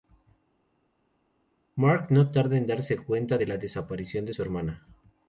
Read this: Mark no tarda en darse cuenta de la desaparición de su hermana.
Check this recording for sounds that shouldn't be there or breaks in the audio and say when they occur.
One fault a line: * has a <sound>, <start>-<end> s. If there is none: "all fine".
all fine